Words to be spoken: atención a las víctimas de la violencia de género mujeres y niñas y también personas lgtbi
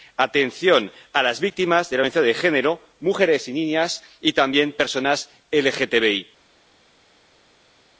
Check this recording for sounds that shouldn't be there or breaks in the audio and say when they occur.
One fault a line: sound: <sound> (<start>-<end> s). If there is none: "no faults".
no faults